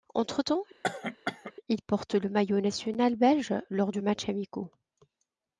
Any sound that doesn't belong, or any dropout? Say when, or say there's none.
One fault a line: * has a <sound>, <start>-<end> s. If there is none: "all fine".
* has a cough, 0.8-1.5 s